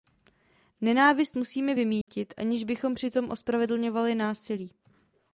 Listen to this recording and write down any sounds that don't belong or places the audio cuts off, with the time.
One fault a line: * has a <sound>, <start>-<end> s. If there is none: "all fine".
* has a dropout, 2.0-2.1 s